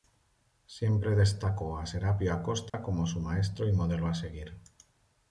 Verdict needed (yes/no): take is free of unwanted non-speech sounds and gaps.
no